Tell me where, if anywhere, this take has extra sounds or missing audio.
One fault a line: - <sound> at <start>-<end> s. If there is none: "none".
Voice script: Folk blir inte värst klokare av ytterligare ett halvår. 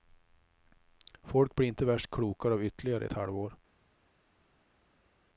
none